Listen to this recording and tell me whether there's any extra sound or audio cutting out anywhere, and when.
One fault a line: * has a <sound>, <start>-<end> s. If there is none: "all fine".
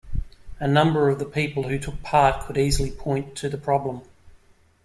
all fine